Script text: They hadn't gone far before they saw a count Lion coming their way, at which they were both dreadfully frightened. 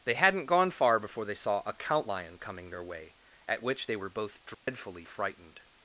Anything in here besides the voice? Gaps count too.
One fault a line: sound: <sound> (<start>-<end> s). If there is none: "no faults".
sound: dropout (4.5-4.7 s)